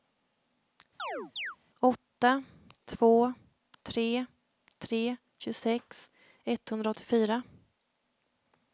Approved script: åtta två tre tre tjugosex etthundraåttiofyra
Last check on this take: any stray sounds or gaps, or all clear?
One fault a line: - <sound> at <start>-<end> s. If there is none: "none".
- chirp at 1.0-1.6 s